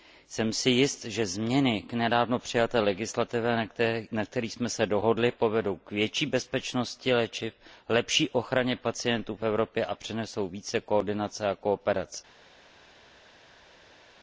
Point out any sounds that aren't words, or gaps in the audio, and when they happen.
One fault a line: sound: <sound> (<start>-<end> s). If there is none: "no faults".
no faults